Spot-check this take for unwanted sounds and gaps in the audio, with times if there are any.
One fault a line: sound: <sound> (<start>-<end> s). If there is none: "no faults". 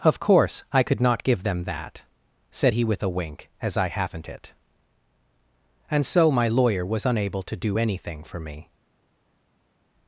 no faults